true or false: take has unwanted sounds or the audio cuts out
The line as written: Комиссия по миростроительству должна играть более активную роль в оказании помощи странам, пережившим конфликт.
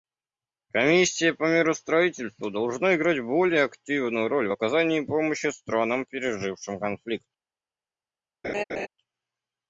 true